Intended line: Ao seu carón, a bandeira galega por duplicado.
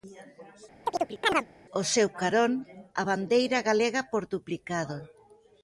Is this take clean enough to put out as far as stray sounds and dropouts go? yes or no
no